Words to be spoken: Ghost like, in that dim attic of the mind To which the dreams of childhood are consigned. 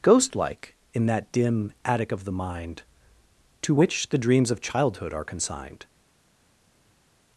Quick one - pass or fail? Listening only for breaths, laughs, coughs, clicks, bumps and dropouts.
pass